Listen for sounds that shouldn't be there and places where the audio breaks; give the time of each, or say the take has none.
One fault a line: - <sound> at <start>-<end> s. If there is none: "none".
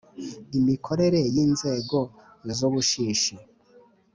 none